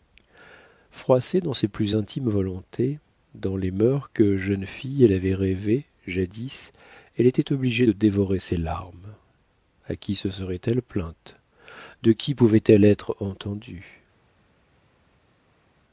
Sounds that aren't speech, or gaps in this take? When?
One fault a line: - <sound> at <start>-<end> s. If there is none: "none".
none